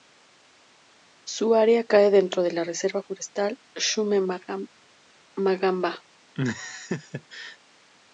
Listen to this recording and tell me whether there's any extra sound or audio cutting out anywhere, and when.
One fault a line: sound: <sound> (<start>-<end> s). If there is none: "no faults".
sound: laugh (6.3-7.6 s)